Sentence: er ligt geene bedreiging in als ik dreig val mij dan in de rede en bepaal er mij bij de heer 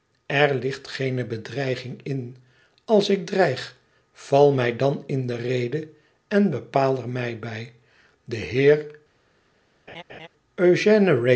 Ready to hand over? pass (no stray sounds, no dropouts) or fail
fail